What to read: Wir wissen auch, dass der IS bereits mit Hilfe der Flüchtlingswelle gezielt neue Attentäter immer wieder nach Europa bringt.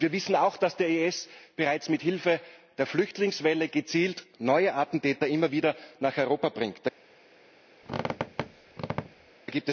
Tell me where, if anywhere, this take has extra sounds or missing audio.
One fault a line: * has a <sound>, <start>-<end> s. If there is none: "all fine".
* has a squeak, 7.8-9.3 s